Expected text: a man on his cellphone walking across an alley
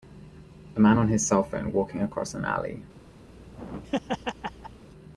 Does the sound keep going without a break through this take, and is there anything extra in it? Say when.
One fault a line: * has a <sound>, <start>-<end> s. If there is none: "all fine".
* has a laugh, 3.3-4.8 s